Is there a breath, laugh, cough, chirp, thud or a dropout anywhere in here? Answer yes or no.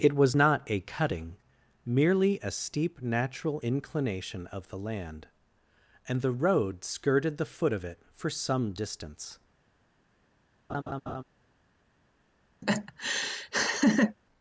yes